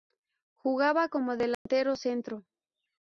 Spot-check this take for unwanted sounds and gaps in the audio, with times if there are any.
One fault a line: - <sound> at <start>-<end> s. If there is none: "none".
- dropout at 1.5-1.7 s